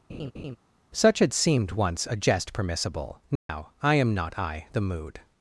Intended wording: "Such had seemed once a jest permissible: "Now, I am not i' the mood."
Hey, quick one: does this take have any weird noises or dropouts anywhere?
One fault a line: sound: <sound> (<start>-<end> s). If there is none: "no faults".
sound: laugh (0.1-0.6 s)
sound: dropout (3.4-3.5 s)